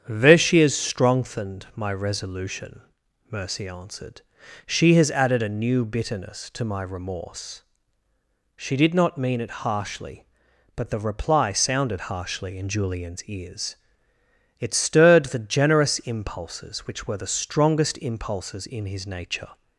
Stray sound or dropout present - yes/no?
no